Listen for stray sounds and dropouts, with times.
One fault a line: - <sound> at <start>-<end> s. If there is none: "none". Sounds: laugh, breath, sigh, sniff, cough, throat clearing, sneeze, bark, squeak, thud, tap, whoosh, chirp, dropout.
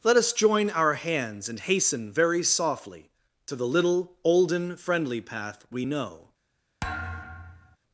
- thud at 6.8-7.8 s